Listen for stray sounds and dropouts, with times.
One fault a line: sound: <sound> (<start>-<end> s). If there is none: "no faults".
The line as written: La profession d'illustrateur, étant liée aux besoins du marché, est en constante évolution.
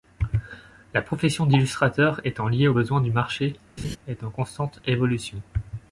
sound: laugh (3.8-4.0 s)